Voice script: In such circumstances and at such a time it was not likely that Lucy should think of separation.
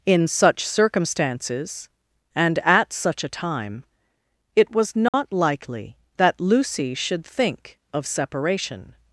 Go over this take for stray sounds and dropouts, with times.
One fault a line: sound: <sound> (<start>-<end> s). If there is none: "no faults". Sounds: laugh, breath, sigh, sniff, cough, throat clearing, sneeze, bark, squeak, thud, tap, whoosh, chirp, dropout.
sound: dropout (5.1-5.1 s)